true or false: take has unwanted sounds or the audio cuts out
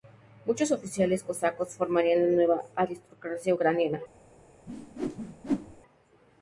true